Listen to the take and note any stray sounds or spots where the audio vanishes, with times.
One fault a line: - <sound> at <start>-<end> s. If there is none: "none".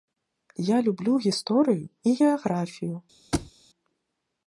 - thud at 3.3-3.5 s